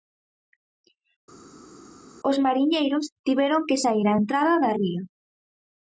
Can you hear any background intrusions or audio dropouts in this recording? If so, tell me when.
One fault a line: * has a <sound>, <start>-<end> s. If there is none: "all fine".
all fine